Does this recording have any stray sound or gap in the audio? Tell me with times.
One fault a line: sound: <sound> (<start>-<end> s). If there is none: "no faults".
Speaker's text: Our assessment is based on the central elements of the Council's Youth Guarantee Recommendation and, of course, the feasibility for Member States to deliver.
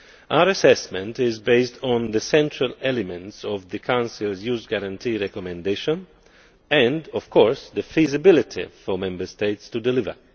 no faults